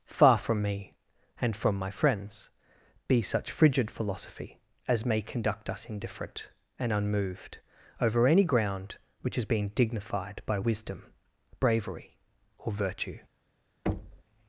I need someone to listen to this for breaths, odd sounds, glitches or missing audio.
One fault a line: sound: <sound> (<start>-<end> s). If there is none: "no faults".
sound: thud (13.9-14.2 s)